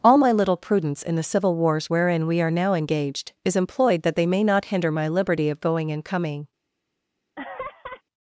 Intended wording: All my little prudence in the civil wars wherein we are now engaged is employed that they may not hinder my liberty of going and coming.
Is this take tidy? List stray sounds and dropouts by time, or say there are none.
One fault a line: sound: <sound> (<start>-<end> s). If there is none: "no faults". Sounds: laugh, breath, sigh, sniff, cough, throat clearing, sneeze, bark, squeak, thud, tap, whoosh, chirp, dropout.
sound: laugh (7.4-8.0 s)